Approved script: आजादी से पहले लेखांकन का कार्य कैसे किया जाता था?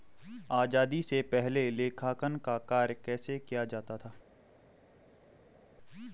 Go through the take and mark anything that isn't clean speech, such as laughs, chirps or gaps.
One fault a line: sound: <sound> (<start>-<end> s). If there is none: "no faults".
no faults